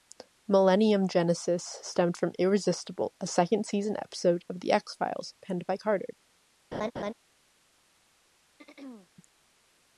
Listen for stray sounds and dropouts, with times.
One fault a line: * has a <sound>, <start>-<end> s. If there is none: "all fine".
* has a laugh, 6.7-7.1 s
* has a throat clearing, 8.6-9.1 s